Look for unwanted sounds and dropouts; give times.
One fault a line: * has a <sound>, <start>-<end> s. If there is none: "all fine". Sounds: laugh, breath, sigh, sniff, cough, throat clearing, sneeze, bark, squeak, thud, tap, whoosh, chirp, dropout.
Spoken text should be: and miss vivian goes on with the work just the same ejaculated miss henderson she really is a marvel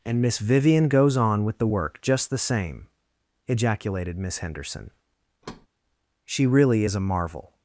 * has a thud, 5.4-5.7 s